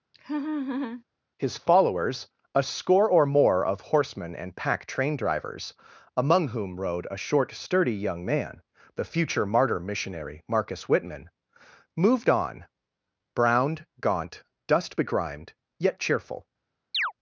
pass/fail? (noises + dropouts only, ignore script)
fail